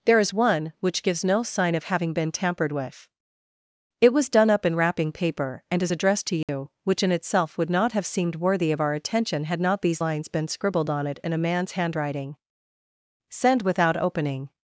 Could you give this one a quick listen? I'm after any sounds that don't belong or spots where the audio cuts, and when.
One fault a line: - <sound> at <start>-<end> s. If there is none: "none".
- dropout at 6.4-6.5 s